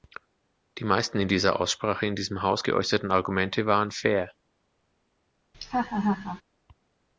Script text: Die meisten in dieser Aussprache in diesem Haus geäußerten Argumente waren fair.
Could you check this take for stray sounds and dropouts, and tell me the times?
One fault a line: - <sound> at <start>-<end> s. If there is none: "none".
- laugh at 5.5-6.4 s